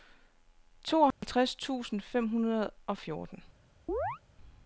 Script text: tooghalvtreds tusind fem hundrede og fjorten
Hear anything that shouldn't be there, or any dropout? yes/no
yes